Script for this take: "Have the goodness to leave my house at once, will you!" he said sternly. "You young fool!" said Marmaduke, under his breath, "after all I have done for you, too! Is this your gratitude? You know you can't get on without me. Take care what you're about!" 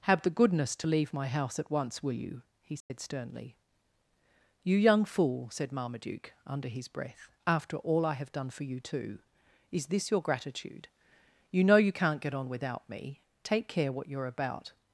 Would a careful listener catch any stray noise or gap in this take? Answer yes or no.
yes